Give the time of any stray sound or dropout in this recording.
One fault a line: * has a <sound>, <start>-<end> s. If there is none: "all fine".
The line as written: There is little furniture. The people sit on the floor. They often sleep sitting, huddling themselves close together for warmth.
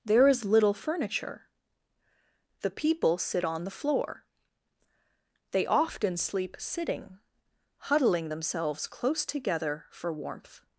all fine